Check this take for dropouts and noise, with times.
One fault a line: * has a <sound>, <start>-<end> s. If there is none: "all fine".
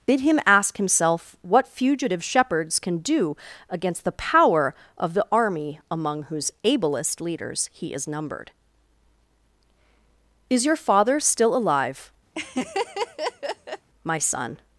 * has a laugh, 12.3-13.9 s